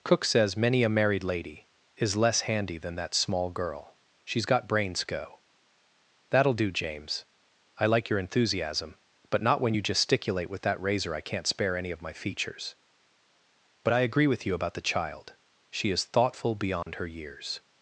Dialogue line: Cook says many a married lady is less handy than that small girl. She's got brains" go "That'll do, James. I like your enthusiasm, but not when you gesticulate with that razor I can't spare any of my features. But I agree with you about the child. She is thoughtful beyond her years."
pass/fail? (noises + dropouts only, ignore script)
fail